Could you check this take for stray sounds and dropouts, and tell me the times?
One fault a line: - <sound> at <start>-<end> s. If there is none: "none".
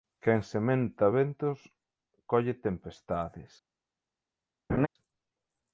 - laugh at 4.7-4.9 s